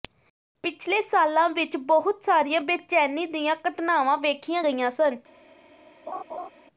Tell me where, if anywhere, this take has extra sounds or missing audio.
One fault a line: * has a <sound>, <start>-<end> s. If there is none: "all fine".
* has a laugh, 6.1-6.5 s